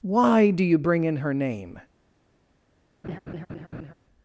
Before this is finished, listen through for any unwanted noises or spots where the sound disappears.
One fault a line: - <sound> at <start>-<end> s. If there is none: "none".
- laugh at 3.0-3.9 s